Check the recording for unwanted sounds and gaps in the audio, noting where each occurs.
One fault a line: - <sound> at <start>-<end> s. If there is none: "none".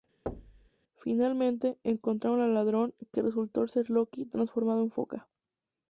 - thud at 0.3-0.7 s